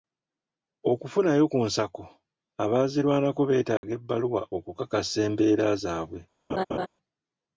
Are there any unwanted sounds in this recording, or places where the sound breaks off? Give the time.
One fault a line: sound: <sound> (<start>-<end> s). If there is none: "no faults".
sound: dropout (3.8-3.8 s)
sound: laugh (6.5-6.9 s)